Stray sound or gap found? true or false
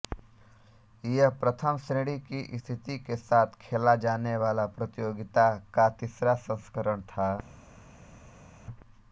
false